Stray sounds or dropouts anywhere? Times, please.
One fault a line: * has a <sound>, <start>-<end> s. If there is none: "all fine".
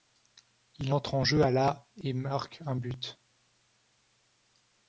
all fine